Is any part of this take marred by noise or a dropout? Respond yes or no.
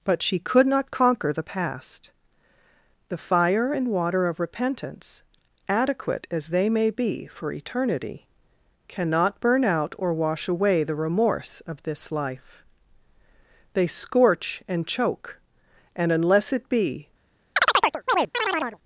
yes